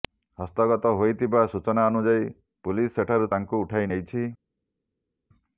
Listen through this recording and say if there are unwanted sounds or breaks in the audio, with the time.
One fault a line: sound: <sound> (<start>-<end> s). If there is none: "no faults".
no faults